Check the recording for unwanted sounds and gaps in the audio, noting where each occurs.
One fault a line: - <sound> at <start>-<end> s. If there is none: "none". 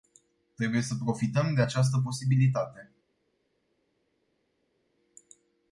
none